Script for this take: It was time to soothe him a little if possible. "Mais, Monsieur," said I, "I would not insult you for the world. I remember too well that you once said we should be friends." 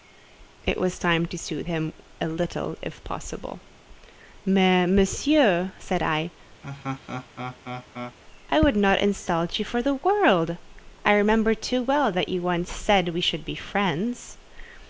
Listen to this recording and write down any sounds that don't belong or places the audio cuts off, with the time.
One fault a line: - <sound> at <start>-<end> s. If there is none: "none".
- laugh at 6.6-8.2 s